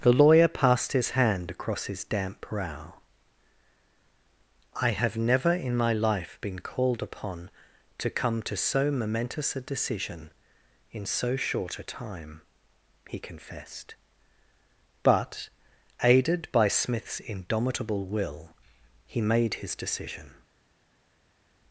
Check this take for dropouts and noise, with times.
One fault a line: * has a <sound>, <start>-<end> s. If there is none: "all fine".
all fine